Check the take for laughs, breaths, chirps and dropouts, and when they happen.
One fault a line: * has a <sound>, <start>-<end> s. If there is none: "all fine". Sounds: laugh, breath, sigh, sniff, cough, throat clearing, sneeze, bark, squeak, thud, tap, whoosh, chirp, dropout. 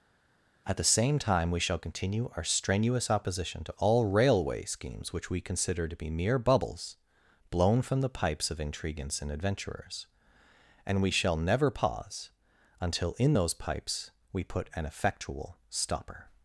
all fine